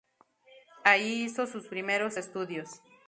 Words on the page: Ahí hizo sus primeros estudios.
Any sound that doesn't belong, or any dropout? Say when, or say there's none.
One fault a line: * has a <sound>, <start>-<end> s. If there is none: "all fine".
all fine